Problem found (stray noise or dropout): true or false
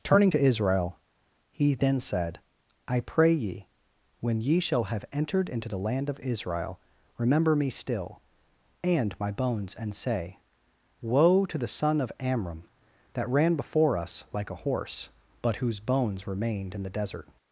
false